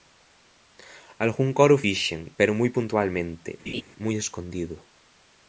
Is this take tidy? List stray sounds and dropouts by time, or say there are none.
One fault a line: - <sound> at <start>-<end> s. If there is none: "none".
- laugh at 3.7-3.8 s